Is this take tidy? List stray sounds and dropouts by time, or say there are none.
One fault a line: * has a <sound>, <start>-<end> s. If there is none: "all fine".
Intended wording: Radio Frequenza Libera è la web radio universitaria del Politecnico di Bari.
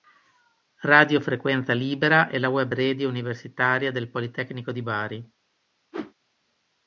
* has a whoosh, 5.9-6.1 s